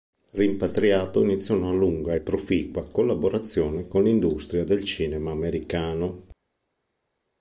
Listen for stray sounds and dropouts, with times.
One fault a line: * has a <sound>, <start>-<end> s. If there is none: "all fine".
all fine